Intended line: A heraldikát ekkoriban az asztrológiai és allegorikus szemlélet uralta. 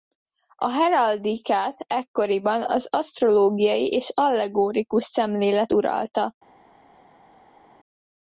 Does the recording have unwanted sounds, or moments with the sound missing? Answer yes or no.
no